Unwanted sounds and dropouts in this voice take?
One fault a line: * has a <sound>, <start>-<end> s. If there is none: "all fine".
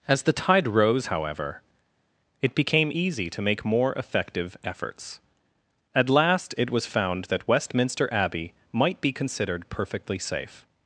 all fine